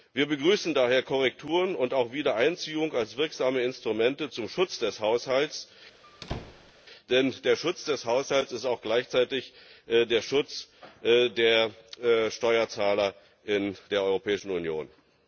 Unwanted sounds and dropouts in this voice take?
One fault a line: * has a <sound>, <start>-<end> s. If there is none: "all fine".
* has a squeak, 6.0-6.7 s